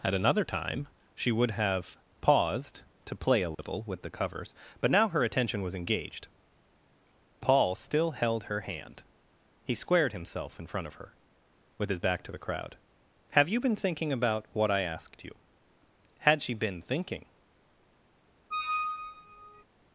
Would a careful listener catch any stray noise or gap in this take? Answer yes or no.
yes